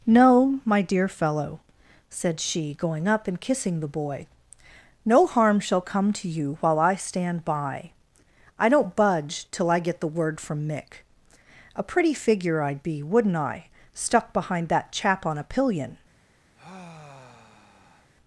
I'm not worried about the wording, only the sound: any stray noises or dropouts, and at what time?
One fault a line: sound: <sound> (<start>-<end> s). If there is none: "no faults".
sound: sigh (16.5-18.1 s)